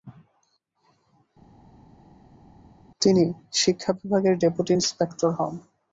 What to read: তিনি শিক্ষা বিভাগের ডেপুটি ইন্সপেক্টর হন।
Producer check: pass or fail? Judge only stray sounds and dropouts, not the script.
pass